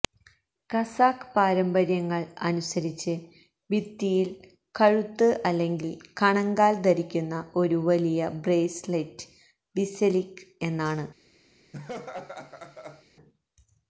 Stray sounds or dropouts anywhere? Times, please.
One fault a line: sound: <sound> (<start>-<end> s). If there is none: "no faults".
sound: laugh (11.7-13.0 s)